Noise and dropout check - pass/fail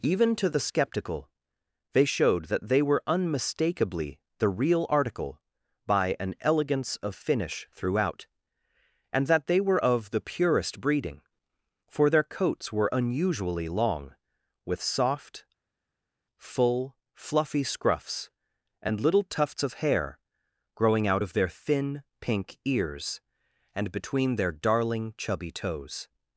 pass